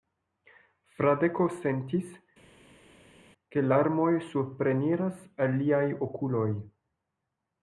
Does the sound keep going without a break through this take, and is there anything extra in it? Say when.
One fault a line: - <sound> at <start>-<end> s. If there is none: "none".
none